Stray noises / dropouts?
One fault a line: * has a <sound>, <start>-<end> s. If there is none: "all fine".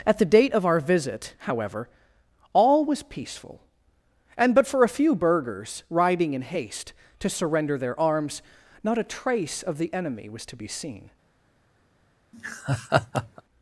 * has a laugh, 12.3-13.4 s